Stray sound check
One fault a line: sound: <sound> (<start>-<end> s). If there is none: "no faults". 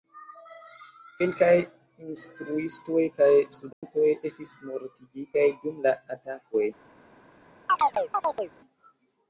sound: dropout (3.7-3.8 s)
sound: chirp (7.7-8.5 s)